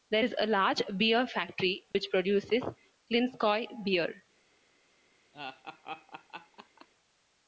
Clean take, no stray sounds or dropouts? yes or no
no